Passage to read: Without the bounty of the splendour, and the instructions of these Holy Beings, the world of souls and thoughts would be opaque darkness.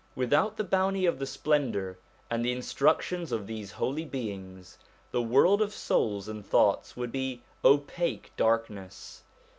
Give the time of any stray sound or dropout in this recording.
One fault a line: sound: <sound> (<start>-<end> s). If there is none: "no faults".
no faults